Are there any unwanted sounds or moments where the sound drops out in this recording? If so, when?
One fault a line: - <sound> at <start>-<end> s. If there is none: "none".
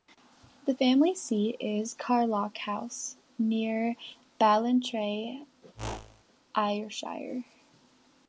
- whoosh at 5.7-6.2 s